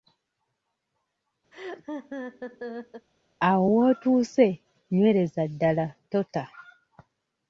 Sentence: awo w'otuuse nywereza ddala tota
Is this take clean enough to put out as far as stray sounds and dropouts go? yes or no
no